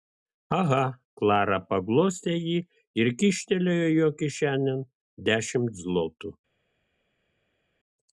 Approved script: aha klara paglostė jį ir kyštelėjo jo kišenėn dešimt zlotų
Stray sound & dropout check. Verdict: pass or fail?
pass